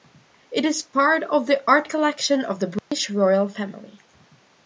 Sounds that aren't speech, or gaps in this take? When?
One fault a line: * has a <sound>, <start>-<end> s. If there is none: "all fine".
* has a dropout, 2.8-2.9 s